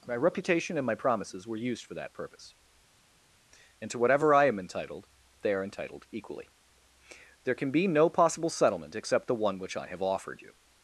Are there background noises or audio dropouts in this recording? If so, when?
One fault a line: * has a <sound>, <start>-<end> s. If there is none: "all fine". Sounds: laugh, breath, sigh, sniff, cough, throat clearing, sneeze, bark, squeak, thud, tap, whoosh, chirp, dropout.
all fine